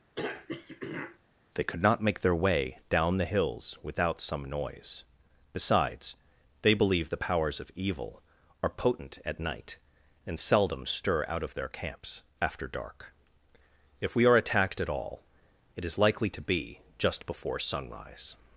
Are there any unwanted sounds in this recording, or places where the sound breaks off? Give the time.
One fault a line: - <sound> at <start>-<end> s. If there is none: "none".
- throat clearing at 0.2-1.2 s